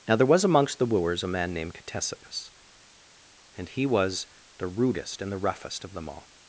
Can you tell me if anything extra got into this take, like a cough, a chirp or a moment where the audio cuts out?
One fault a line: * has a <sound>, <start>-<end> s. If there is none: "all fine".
all fine